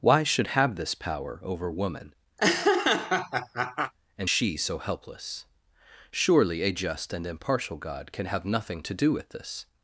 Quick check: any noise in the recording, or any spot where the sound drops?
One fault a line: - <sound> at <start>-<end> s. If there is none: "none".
- laugh at 2.4-3.9 s